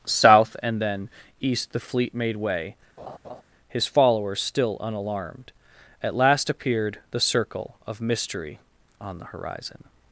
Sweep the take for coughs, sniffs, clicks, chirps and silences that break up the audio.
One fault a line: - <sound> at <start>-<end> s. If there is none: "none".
- laugh at 3.0-3.4 s